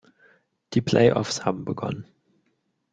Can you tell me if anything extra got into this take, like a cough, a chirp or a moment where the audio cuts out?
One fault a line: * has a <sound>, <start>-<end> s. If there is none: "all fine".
all fine